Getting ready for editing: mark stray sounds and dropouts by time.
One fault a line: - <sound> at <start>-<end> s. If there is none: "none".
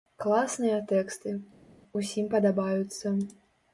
none